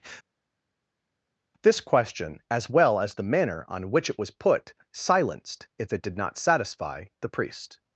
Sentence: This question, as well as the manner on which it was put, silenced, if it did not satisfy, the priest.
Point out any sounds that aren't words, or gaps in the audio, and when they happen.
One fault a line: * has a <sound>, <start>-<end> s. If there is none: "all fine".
all fine